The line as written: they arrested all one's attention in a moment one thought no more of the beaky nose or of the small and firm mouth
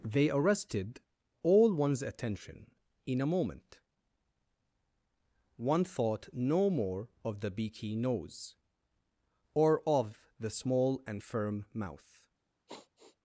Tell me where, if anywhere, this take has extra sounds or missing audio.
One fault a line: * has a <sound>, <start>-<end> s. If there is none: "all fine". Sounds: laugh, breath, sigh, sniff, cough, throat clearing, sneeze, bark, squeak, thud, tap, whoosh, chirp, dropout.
* has a sigh, 12.7-13.2 s